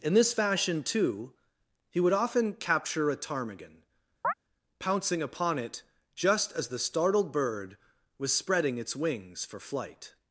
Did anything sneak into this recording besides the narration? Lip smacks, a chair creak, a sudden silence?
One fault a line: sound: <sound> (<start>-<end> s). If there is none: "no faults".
sound: chirp (4.2-4.3 s)